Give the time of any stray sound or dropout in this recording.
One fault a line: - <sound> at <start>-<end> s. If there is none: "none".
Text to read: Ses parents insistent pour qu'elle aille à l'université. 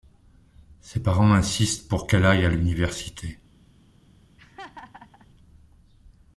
- laugh at 4.4-5.3 s